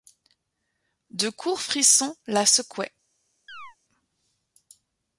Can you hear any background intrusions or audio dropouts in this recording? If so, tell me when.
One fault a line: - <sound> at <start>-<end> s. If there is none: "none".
- chirp at 3.5-3.8 s